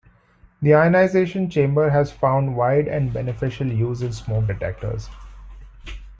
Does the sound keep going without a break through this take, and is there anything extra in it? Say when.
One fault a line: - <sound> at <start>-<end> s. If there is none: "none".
none